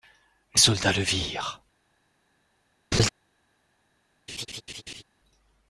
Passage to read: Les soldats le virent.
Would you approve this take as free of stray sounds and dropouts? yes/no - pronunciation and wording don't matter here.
no